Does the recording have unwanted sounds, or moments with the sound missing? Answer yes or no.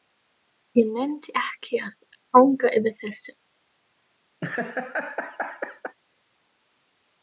yes